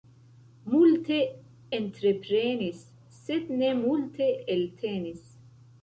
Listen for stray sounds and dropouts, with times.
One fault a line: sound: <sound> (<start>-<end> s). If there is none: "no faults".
no faults